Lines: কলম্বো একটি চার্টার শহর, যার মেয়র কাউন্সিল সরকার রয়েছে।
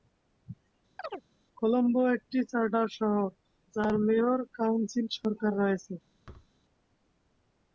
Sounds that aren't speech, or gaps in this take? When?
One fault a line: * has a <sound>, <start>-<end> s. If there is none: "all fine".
* has a chirp, 1.0-1.2 s
* has a thud, 6.2-6.5 s